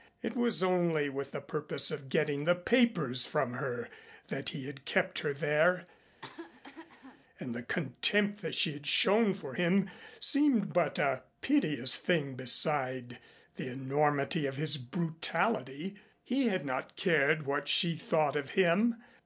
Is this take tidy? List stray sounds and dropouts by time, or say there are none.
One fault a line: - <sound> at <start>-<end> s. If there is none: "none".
- cough at 6.1-7.2 s